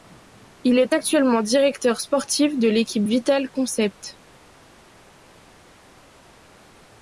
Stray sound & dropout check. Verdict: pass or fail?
pass